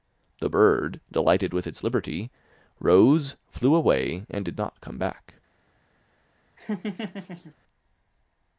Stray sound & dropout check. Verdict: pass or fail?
fail